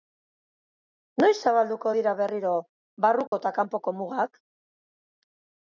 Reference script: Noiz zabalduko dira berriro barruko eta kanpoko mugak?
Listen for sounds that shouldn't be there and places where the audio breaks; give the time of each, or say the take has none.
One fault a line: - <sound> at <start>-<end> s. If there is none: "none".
- dropout at 3.3-3.3 s